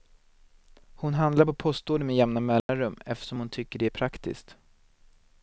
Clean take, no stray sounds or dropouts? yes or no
no